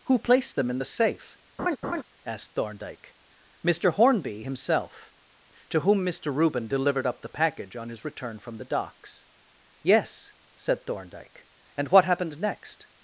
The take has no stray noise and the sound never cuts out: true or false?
false